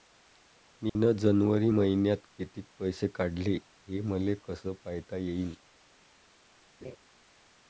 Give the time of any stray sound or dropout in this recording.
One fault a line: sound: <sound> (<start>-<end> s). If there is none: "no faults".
sound: dropout (0.9-1.0 s)
sound: laugh (6.8-7.0 s)